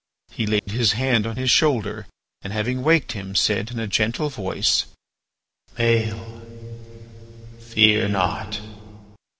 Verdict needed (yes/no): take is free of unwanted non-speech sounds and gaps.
no